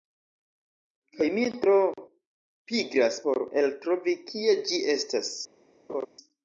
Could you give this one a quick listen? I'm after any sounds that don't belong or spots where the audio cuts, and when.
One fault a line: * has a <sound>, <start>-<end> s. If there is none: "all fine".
* has a laugh, 5.9-6.1 s